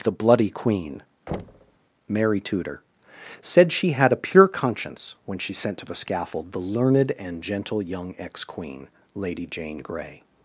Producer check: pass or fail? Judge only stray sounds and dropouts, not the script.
fail